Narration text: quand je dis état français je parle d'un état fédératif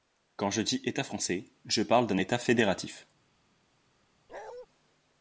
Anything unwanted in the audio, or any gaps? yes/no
yes